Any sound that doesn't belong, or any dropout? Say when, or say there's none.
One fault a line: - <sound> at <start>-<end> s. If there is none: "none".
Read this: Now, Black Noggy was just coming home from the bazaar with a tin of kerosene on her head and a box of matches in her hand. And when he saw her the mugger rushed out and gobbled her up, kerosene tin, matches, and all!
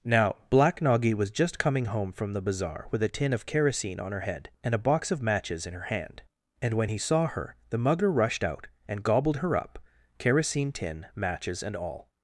none